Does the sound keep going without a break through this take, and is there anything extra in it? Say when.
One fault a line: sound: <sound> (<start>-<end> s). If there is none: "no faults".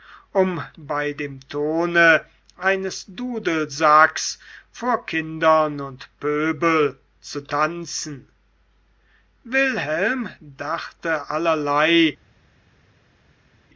no faults